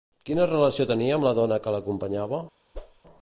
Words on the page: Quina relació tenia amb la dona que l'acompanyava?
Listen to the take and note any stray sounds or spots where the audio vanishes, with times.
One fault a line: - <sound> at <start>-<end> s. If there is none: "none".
- whoosh at 2.7-3.0 s